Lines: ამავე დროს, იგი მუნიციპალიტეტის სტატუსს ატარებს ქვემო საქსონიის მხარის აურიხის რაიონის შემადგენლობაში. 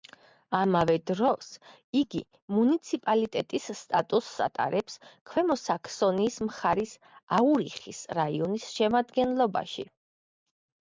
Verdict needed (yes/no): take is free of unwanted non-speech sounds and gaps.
yes